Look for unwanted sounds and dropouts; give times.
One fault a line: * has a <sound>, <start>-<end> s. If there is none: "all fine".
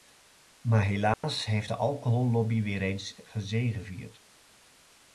* has a dropout, 1.1-1.2 s